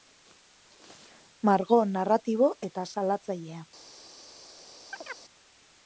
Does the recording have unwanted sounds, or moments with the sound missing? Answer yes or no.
yes